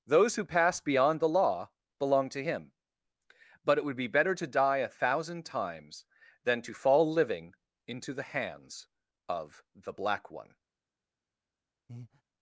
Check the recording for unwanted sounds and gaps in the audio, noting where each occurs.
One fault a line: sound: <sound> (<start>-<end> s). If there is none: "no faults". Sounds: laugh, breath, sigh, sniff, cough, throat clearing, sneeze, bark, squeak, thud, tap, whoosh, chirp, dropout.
sound: breath (11.9-12.2 s)